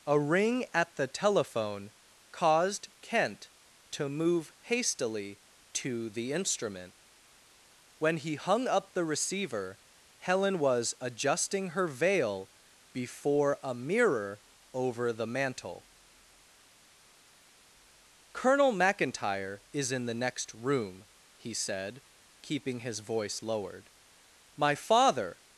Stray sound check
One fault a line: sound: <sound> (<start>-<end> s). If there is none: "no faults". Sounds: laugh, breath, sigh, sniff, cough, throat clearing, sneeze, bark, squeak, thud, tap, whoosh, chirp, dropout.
no faults